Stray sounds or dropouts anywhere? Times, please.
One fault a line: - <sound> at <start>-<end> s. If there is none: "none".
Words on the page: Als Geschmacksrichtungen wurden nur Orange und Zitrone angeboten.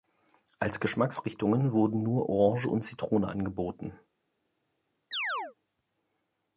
- chirp at 5.1-5.6 s